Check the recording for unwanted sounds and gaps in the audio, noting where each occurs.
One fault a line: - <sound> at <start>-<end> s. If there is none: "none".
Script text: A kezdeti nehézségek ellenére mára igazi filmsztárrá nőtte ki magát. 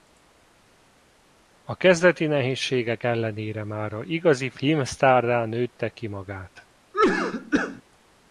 - cough at 6.9-7.8 s